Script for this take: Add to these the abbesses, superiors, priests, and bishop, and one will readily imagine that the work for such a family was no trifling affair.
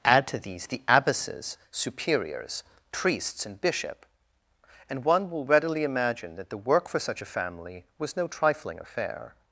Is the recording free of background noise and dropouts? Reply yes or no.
yes